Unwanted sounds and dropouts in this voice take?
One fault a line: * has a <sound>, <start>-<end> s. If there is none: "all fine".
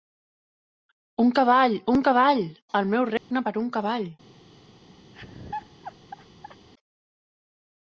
* has a dropout, 3.2-3.3 s
* has a laugh, 5.1-6.7 s